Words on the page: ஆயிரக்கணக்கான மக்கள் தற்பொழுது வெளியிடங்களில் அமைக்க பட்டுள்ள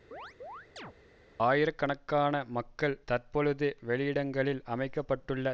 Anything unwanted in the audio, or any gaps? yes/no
yes